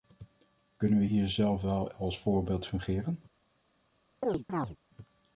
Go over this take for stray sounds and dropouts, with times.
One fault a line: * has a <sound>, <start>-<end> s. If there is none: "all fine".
* has a chirp, 4.2-4.8 s